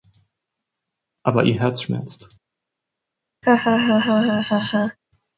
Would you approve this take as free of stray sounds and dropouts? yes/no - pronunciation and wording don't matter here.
no